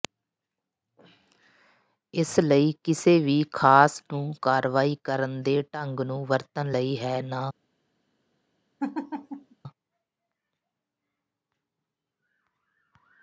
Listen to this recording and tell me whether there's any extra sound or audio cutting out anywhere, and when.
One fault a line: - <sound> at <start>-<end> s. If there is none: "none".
- laugh at 8.8-9.6 s